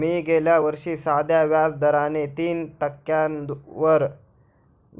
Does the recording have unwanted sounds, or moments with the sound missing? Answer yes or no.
no